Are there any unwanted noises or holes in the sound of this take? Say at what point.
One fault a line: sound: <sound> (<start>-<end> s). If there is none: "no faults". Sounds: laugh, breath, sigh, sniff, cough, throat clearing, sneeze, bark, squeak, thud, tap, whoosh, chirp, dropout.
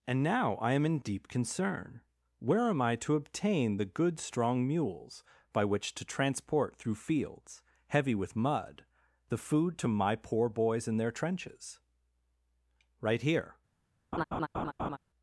sound: laugh (14.1-15.0 s)